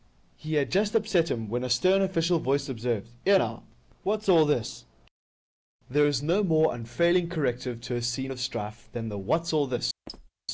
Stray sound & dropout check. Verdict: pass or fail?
fail